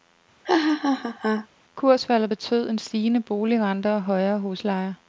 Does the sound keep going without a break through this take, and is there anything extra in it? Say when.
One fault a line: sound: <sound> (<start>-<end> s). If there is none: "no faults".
sound: laugh (0.4-1.5 s)